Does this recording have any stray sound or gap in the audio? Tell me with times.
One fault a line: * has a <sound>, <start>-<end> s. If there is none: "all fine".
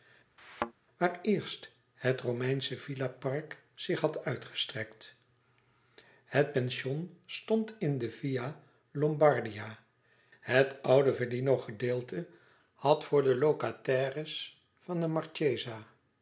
* has a thud, 0.4-0.7 s